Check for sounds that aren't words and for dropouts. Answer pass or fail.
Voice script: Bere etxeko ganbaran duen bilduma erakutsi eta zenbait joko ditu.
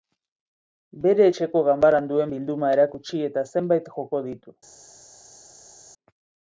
pass